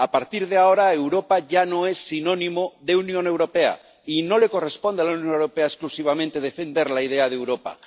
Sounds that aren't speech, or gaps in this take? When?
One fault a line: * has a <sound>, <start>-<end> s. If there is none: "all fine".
all fine